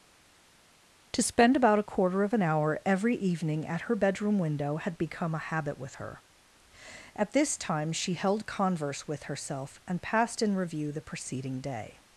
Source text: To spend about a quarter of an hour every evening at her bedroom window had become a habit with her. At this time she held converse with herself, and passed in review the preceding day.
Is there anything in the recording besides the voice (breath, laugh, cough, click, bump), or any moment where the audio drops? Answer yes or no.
no